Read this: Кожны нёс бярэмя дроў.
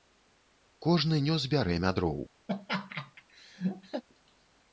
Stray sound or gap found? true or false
true